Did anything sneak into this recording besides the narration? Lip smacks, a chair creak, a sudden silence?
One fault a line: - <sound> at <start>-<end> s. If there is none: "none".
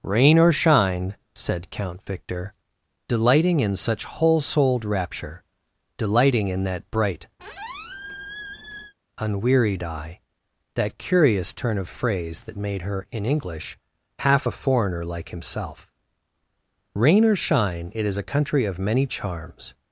- squeak at 7.4-8.9 s